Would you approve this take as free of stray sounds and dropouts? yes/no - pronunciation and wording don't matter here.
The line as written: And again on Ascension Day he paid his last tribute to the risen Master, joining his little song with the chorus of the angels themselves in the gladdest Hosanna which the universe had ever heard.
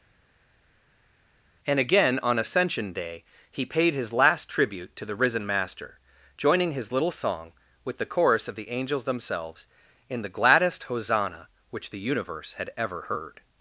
yes